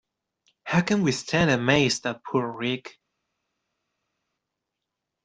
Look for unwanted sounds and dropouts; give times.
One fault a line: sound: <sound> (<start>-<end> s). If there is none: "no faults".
no faults